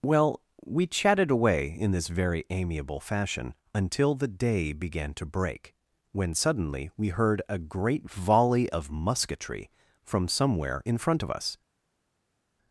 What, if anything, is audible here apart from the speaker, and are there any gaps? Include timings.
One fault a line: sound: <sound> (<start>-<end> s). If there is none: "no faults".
no faults